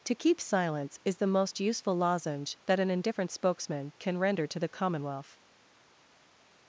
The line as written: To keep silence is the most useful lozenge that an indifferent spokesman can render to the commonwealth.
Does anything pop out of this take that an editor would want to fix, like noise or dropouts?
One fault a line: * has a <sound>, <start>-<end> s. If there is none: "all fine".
all fine